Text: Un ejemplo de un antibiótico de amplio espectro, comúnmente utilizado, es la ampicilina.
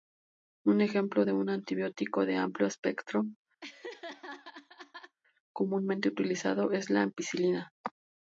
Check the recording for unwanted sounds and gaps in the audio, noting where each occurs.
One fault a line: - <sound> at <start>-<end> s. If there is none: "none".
- laugh at 3.6-5.2 s